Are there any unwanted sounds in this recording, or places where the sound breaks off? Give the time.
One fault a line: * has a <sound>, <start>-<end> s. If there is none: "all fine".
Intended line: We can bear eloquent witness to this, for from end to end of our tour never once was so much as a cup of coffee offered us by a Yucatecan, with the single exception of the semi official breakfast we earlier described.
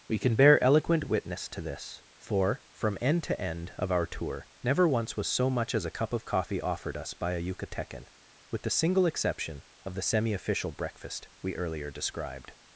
all fine